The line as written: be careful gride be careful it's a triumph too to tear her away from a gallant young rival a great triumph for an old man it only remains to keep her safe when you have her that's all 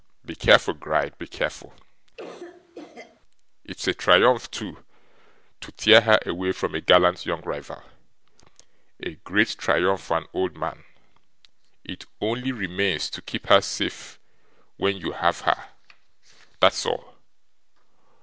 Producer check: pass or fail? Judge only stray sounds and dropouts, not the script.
fail